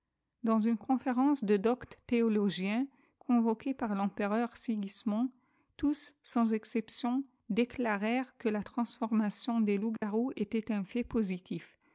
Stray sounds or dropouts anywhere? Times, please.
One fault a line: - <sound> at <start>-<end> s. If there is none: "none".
- dropout at 10.0-10.0 s